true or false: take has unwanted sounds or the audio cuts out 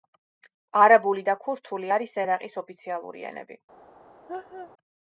true